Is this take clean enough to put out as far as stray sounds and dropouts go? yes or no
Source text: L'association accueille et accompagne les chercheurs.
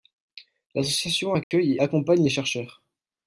no